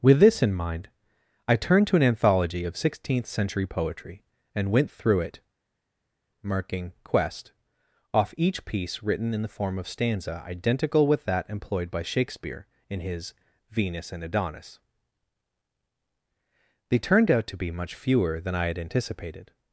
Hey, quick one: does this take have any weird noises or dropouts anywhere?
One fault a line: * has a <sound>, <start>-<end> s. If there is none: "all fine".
all fine